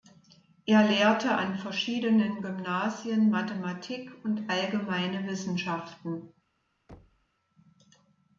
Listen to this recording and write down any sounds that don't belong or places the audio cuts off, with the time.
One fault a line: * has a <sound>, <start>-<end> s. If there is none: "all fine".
* has a thud, 6.9-7.3 s